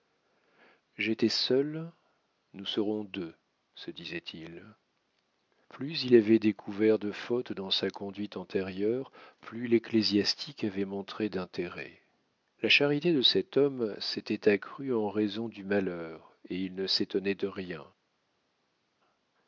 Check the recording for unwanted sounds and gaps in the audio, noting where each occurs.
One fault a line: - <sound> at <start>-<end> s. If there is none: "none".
none